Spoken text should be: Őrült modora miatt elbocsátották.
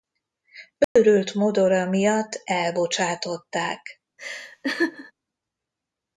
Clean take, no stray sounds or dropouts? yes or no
no